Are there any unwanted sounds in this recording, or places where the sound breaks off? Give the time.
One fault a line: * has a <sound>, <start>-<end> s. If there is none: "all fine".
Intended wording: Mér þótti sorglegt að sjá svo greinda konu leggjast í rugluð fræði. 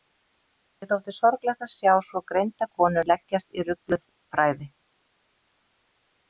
all fine